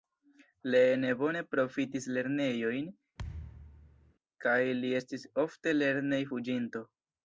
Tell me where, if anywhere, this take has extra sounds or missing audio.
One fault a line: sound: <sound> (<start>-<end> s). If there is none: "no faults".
sound: thud (3.2-4.1 s)